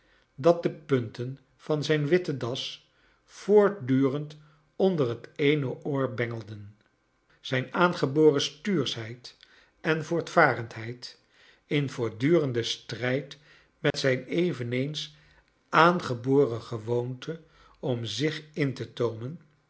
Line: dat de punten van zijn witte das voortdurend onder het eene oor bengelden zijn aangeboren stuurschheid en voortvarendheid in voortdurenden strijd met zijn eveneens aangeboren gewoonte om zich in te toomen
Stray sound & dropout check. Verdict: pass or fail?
fail